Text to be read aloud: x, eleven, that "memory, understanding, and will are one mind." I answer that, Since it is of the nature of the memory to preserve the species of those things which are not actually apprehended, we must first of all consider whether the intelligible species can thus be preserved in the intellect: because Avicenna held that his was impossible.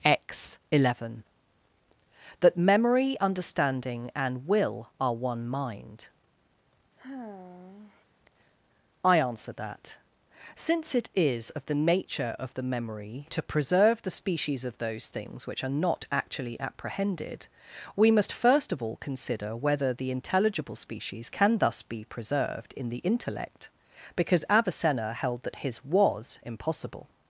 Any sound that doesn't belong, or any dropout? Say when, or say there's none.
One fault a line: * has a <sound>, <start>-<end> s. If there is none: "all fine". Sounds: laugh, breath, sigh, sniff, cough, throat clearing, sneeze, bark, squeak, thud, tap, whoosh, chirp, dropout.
* has a sigh, 7.0-8.1 s